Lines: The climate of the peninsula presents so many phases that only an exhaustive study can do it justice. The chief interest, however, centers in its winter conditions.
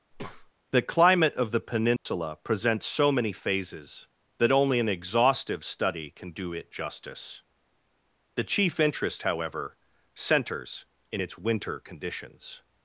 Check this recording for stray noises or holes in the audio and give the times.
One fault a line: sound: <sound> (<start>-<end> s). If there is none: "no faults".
sound: breath (0.1-0.5 s)
sound: dropout (2.0-2.1 s)